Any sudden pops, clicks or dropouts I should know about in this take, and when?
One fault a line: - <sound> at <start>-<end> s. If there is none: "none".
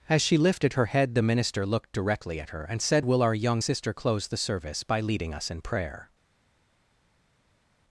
none